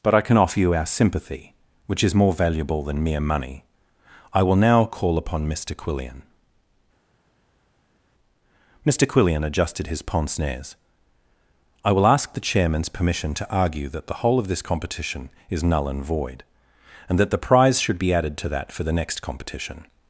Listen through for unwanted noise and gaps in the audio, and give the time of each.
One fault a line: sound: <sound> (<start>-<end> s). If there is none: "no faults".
no faults